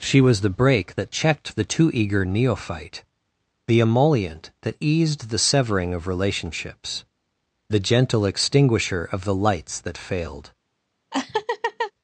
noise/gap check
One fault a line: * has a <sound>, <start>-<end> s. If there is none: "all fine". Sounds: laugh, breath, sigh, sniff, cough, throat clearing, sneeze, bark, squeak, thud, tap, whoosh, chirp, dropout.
* has a laugh, 11.1-11.9 s